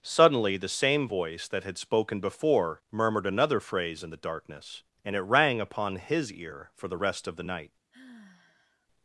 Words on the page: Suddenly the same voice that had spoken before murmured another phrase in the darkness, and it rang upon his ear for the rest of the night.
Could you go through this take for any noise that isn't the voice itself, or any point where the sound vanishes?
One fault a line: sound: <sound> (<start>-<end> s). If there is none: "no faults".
sound: sigh (7.9-8.9 s)